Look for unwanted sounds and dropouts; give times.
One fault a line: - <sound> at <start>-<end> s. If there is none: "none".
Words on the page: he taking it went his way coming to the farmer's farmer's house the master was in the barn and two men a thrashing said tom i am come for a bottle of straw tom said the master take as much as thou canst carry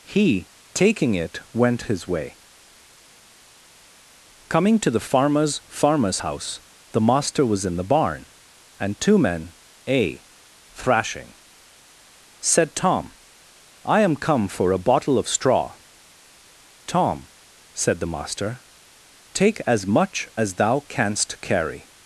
none